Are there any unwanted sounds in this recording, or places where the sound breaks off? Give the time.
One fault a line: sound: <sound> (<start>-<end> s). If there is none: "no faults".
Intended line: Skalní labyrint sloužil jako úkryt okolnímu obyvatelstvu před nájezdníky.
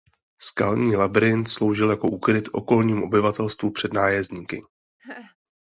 sound: laugh (5.0-5.4 s)